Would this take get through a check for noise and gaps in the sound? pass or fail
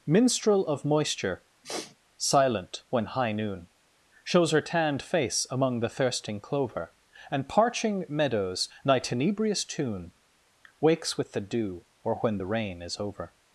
fail